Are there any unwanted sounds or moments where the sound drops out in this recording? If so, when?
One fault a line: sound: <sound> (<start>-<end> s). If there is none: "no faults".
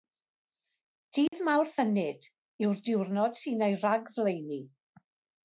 sound: dropout (1.3-1.3 s)